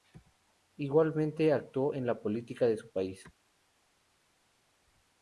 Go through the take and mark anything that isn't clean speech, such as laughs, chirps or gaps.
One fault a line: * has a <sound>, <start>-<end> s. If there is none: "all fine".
all fine